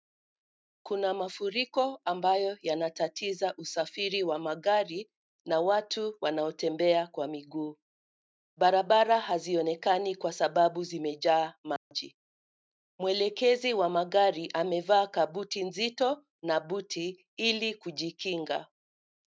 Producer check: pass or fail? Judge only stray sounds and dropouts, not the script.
fail